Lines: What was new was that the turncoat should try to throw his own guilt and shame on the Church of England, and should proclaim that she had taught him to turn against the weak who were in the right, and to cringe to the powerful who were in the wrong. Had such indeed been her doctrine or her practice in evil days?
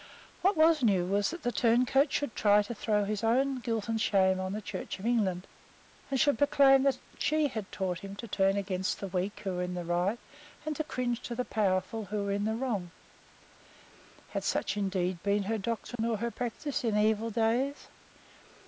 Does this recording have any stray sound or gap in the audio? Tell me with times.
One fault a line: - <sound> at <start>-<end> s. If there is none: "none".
- dropout at 16.0-16.0 s